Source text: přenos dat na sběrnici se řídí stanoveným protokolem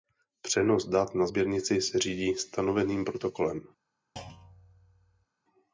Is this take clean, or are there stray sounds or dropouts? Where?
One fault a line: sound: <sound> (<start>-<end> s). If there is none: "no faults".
sound: thud (4.2-5.3 s)